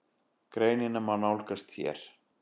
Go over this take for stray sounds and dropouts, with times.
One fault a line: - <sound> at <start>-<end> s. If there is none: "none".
none